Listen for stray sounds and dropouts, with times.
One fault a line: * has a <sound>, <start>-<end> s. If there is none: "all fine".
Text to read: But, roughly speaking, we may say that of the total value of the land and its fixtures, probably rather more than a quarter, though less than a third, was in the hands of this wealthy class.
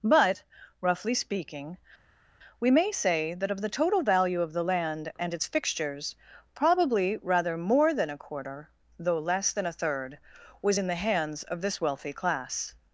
all fine